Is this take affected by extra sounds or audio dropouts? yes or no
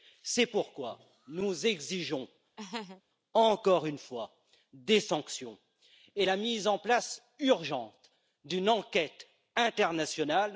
yes